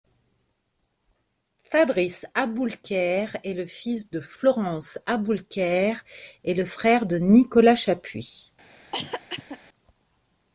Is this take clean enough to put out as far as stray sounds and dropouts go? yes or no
no